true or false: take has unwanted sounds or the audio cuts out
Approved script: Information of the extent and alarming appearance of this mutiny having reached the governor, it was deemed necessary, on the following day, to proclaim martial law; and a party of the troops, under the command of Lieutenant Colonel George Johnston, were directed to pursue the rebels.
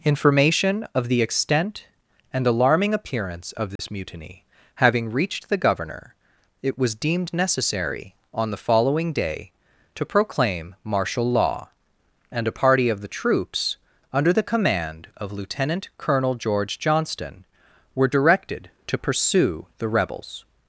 true